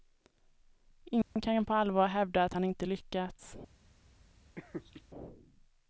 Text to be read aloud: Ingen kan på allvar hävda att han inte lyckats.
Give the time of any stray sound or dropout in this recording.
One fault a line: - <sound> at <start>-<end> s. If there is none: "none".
- dropout at 1.2-1.4 s
- laugh at 4.6-5.0 s